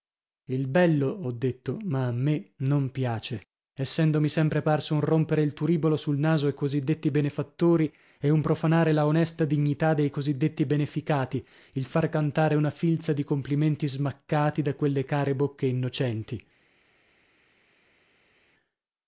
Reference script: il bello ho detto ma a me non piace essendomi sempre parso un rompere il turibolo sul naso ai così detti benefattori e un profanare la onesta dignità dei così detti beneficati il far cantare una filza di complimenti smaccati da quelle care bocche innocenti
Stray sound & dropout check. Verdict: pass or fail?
pass